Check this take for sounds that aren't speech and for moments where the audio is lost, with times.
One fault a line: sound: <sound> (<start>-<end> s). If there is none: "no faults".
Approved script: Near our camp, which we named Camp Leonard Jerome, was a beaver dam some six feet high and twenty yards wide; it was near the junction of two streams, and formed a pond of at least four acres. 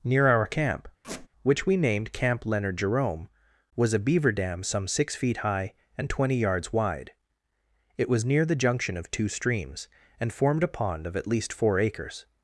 sound: squeak (1.0-1.3 s)